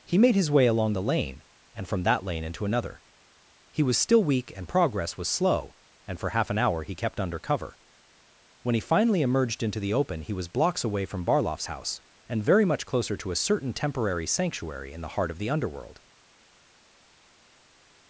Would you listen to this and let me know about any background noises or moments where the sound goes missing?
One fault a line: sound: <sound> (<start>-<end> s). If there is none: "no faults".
no faults